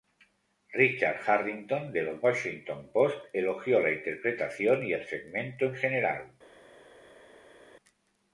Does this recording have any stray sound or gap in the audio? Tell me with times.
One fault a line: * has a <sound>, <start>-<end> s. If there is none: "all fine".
all fine